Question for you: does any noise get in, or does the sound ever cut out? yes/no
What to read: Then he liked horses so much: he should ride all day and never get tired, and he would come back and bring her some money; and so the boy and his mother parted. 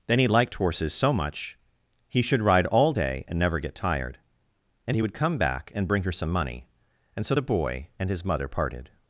no